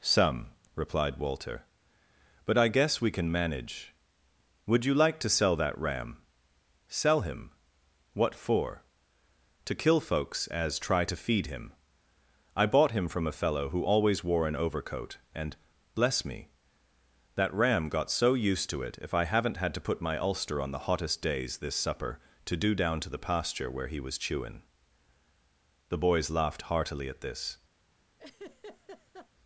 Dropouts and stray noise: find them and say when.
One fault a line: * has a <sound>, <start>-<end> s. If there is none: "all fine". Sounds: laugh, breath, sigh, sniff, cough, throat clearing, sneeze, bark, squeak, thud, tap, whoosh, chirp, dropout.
* has a laugh, 28.2-29.3 s